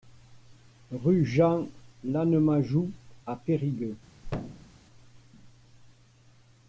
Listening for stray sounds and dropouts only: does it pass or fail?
fail